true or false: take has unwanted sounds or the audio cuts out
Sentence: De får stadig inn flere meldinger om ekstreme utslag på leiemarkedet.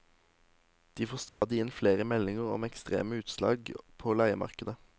true